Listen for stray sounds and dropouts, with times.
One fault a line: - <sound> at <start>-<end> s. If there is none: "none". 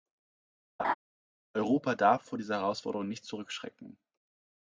- laugh at 0.8-0.9 s